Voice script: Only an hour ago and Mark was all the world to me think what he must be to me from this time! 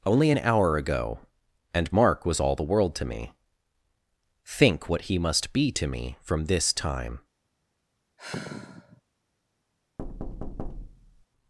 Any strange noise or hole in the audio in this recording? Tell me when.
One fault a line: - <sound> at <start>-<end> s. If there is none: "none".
- sigh at 8.2-9.0 s
- thud at 10.0-11.3 s